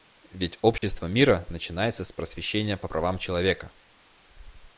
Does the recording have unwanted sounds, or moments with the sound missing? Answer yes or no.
yes